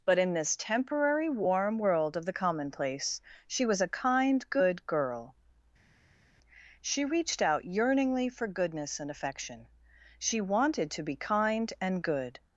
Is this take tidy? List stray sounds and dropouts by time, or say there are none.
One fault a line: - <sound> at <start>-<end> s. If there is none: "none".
none